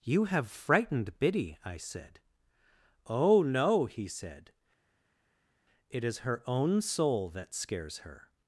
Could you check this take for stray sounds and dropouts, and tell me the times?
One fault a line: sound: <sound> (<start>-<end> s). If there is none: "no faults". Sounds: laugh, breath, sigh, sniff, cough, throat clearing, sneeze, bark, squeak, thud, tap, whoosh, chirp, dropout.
no faults